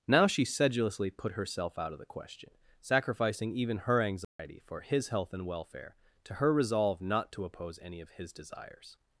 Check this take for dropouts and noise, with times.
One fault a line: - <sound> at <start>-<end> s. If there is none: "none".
- dropout at 4.2-4.4 s